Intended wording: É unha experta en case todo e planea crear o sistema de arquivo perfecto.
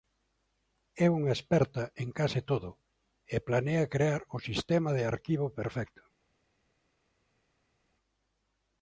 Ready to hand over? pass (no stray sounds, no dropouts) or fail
pass